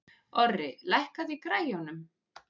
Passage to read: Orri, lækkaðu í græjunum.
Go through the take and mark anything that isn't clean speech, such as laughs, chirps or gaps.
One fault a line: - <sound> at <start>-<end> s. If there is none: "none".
none